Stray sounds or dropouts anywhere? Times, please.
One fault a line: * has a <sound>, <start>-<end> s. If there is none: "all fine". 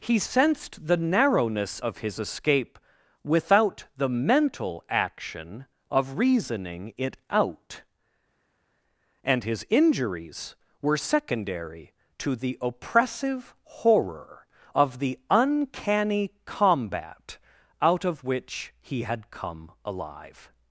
all fine